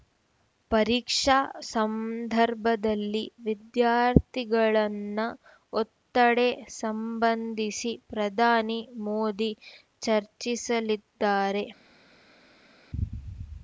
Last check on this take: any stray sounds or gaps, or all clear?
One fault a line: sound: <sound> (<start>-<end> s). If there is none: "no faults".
no faults